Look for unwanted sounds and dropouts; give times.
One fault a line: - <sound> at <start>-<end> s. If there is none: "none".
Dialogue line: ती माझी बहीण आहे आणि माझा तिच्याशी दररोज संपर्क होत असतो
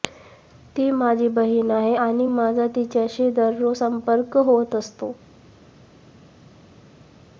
none